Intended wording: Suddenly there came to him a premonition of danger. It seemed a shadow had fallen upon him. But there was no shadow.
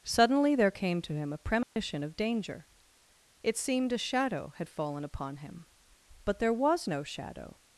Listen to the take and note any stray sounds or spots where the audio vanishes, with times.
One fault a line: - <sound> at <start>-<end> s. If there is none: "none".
- dropout at 1.6-1.8 s